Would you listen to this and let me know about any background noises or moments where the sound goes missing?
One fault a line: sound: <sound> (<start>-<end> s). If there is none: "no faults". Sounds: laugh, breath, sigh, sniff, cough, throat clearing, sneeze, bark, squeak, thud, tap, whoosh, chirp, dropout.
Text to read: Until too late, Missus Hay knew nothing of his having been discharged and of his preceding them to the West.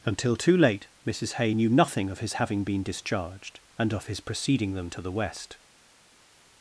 no faults